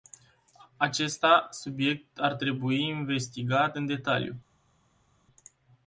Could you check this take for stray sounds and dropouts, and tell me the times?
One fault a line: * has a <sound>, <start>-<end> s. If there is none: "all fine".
all fine